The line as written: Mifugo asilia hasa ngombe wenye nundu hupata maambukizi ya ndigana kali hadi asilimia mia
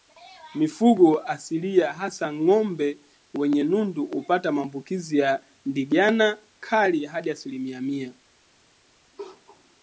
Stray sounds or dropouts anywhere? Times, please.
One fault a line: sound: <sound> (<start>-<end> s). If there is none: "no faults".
no faults